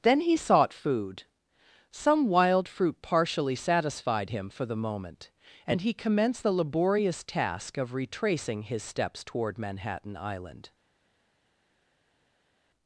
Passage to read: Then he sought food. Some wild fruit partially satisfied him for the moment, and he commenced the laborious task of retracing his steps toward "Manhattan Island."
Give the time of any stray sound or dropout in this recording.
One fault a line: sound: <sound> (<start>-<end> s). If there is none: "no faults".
no faults